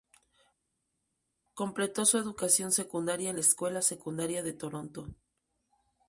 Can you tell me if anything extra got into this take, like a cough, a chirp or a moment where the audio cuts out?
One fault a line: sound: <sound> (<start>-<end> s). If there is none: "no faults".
no faults